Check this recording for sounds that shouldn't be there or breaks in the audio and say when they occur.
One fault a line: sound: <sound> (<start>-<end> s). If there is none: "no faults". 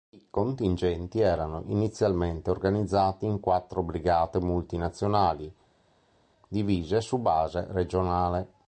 no faults